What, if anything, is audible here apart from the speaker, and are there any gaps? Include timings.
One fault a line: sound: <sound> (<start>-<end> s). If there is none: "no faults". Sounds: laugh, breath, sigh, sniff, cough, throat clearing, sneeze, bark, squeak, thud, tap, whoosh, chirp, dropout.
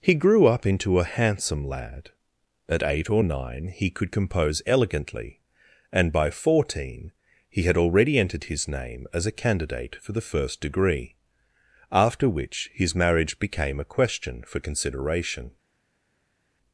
no faults